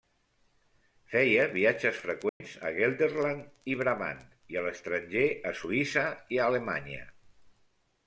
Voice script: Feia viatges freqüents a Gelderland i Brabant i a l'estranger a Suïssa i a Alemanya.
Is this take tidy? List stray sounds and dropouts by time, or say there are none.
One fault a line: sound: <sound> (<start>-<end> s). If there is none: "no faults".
sound: dropout (2.3-2.4 s)